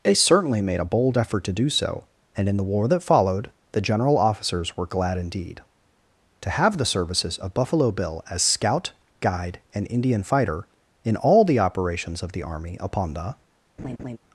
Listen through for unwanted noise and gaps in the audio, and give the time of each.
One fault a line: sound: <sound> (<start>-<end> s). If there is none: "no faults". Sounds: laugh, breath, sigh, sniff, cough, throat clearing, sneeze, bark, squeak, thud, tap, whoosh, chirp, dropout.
sound: laugh (13.8-14.2 s)